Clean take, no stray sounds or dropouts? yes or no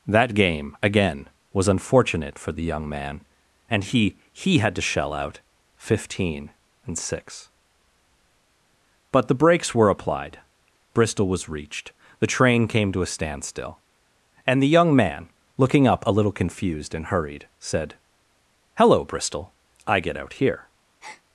no